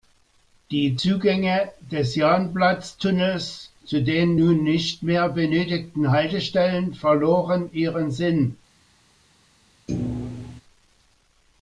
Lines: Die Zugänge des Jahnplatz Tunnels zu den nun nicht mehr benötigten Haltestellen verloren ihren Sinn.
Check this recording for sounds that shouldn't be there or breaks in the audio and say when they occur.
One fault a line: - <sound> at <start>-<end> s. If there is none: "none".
- thud at 9.9-10.6 s